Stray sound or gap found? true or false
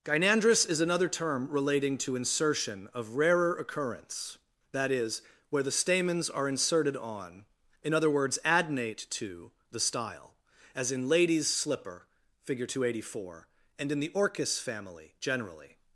false